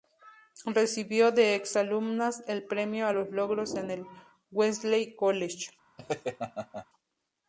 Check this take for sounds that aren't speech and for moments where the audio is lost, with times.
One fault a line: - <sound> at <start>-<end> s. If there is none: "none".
- laugh at 6.0-6.9 s